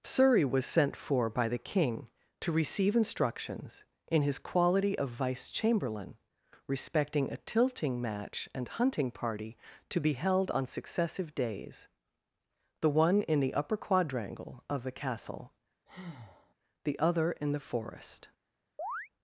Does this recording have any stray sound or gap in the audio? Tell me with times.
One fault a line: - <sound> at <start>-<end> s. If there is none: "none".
- breath at 15.9-16.5 s
- chirp at 18.8-19.1 s